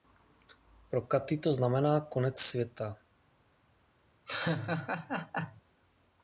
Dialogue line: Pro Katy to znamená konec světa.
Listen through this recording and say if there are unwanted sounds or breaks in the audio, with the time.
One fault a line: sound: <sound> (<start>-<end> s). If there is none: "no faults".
sound: laugh (4.3-5.6 s)